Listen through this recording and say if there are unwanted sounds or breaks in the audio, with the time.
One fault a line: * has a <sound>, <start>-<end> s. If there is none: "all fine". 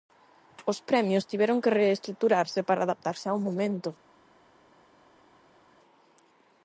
all fine